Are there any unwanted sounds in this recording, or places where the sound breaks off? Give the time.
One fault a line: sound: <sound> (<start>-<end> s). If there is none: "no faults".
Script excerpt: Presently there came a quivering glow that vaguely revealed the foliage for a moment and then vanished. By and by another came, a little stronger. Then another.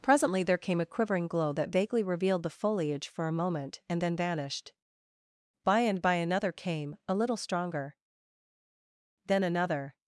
no faults